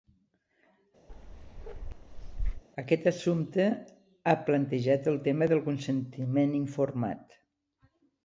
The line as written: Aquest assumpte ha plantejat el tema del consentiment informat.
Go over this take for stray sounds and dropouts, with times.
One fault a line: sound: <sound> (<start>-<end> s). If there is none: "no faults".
sound: bark (1.1-2.6 s)